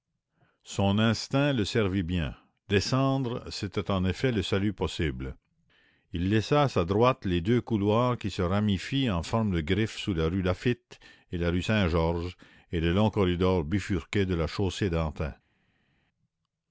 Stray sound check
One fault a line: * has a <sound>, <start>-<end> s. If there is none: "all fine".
all fine